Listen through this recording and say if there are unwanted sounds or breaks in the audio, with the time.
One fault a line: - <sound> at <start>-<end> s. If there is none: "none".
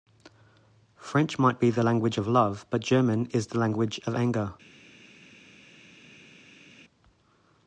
none